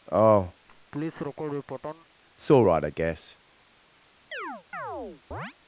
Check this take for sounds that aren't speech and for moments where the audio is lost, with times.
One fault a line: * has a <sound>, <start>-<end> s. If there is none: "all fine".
* has a laugh, 0.7-2.1 s
* has a chirp, 4.3-5.5 s